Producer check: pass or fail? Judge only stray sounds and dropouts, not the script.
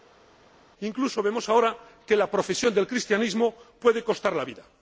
pass